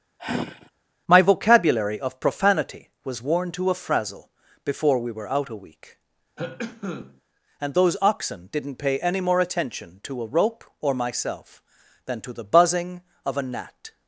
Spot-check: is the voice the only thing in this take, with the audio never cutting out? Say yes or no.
no